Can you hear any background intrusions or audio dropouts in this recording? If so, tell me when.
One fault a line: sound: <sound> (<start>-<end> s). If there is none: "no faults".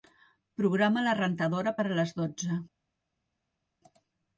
no faults